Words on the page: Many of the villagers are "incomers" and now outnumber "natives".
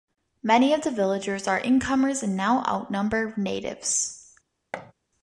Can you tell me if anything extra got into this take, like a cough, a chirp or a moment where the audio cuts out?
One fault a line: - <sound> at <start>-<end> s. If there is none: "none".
- thud at 4.7-4.9 s